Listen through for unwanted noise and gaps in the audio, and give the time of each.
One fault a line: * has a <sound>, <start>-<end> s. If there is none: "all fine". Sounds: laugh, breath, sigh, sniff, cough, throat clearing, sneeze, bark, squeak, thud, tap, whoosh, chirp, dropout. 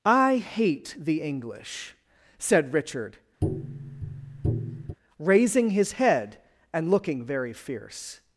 * has a tap, 3.4-5.0 s